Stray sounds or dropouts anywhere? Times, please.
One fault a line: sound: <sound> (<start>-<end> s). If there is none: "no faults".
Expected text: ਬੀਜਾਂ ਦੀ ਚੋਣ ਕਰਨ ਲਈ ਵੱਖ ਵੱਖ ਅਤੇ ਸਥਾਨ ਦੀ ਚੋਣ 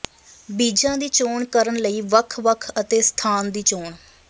no faults